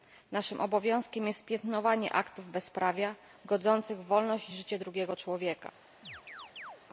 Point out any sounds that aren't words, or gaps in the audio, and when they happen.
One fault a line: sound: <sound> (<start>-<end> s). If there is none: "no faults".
sound: chirp (6.0-6.8 s)